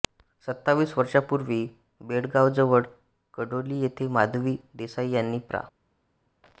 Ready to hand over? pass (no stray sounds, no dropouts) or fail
pass